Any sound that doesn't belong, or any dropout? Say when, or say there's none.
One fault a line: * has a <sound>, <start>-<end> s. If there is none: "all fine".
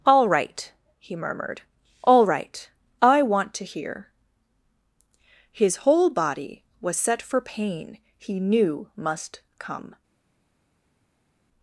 all fine